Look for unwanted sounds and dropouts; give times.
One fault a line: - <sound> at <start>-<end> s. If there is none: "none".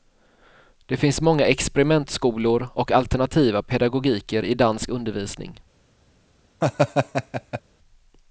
- laugh at 6.6-7.6 s